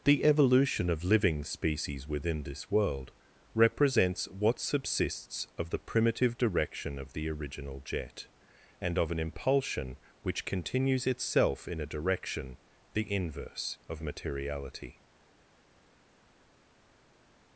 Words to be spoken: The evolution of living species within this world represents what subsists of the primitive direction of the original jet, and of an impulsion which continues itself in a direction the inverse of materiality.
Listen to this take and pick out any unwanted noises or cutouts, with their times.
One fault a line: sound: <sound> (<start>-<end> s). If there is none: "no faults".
no faults